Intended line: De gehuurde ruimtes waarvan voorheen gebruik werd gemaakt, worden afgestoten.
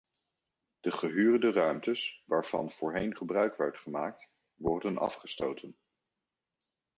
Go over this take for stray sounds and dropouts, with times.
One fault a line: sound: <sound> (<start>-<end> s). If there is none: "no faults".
no faults